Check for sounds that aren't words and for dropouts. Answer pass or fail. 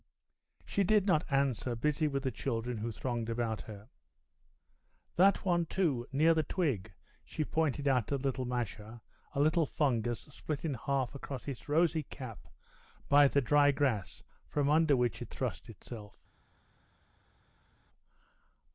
pass